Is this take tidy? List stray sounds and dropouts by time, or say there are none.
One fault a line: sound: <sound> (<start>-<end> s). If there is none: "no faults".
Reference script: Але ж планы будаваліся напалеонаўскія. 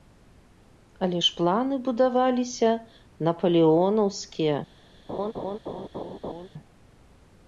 sound: laugh (5.1-6.5 s)